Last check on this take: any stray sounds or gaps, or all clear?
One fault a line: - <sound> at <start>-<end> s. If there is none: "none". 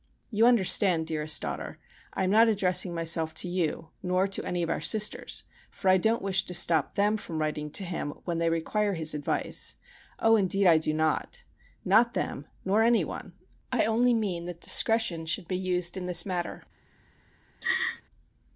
- laugh at 17.6-18.0 s